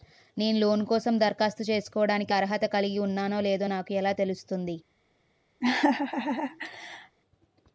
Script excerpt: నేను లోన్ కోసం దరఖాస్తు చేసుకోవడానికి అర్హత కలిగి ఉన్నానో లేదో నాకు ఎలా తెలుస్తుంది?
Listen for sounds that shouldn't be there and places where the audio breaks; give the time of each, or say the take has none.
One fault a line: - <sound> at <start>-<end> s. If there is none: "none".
- laugh at 5.6-7.2 s